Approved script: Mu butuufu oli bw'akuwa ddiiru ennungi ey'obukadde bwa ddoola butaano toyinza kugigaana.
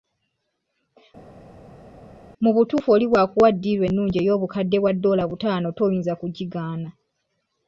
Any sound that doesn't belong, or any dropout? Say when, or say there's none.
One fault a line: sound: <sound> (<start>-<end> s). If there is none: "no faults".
no faults